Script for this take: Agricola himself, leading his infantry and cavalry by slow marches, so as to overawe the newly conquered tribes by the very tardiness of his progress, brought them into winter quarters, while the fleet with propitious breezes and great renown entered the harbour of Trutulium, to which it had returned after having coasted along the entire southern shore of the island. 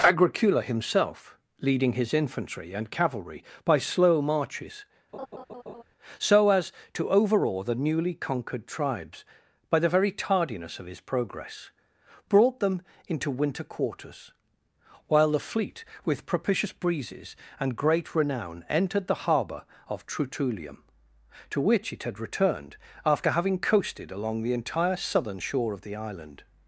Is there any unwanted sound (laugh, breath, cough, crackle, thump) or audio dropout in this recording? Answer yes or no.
yes